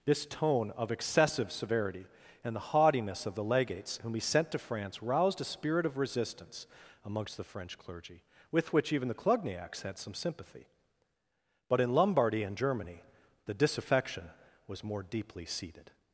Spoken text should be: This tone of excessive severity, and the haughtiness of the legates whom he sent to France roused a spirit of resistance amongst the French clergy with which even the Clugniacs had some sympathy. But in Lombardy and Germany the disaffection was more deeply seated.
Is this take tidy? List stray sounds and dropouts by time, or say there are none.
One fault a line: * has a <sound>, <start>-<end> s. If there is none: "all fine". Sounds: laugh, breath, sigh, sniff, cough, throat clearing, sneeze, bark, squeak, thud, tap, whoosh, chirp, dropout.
all fine